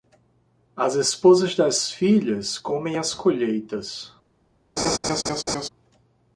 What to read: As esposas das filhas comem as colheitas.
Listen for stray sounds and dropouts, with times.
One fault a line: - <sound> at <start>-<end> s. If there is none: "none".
- laugh at 4.8-5.7 s